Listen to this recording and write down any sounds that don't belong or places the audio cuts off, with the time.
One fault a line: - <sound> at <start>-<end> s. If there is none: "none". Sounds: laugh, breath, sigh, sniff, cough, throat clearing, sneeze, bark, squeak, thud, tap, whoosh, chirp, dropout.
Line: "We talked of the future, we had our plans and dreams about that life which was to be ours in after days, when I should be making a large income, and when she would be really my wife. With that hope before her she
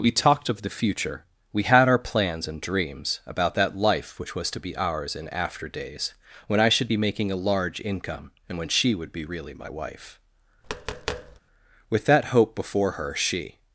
- tap at 10.6-11.4 s